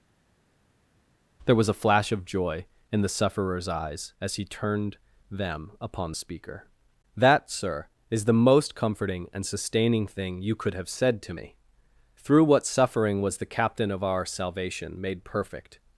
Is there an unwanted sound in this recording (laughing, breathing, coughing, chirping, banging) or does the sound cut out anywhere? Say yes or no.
no